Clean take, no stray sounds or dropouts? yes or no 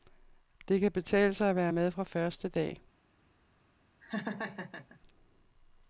no